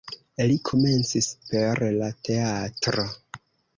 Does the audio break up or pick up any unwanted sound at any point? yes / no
no